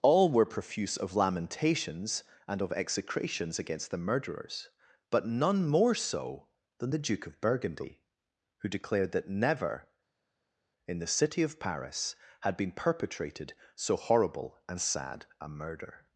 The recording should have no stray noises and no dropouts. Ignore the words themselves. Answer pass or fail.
pass